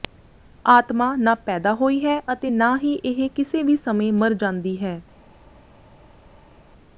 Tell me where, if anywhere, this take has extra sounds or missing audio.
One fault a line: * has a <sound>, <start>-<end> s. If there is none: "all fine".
all fine